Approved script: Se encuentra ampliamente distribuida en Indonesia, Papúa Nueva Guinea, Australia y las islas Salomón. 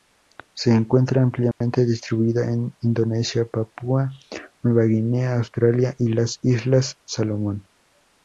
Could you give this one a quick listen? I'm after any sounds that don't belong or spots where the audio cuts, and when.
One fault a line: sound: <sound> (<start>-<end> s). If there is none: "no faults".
sound: dropout (1.5-1.6 s)